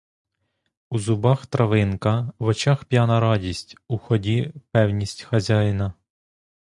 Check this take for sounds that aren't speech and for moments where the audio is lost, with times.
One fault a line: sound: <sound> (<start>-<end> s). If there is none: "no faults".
no faults